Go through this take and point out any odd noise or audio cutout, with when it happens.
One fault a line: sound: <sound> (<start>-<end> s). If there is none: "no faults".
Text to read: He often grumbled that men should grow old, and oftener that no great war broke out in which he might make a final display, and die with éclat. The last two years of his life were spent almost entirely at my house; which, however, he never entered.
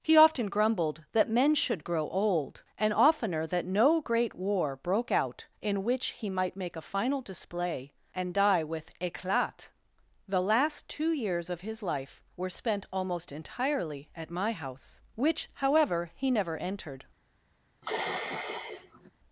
sound: sigh (17.8-19.1 s)